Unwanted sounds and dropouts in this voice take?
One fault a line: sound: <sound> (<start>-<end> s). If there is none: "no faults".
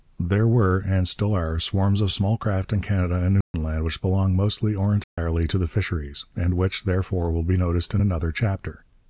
sound: dropout (3.4-3.5 s)
sound: dropout (5.0-5.2 s)